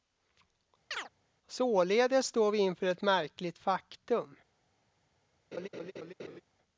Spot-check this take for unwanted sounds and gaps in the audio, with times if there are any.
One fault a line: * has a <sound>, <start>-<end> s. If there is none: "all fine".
* has a chirp, 0.9-1.1 s
* has a laugh, 5.5-6.4 s